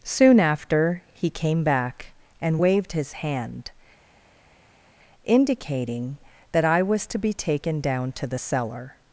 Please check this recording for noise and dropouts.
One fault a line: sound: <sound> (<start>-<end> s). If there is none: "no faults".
no faults